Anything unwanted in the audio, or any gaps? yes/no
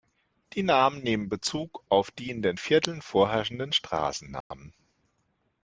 yes